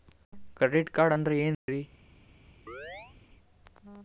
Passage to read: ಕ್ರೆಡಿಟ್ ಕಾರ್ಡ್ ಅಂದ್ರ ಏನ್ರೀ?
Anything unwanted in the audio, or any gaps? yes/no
yes